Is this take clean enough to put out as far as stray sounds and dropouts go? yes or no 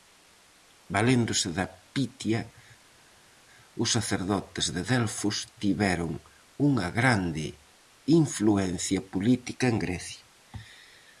yes